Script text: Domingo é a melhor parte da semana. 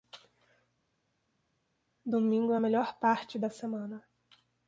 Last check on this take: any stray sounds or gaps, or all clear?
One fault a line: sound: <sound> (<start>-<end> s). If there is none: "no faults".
no faults